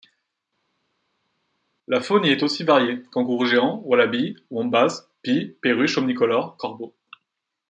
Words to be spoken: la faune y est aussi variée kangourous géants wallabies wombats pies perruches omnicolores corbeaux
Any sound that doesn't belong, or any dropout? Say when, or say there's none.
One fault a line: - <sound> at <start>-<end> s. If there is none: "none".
none